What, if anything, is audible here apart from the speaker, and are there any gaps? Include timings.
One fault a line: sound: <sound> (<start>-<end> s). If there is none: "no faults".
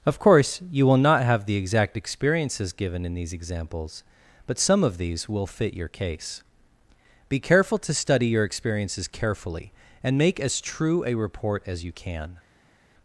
no faults